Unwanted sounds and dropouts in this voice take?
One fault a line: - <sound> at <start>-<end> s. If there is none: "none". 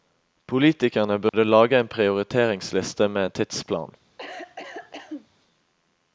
- dropout at 1.3-1.3 s
- cough at 4.2-5.3 s